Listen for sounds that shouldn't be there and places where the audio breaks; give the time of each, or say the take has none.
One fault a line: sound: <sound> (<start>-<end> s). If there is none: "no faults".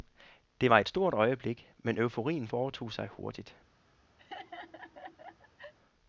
sound: laugh (4.2-5.7 s)